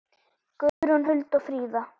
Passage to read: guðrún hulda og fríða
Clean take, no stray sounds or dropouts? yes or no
no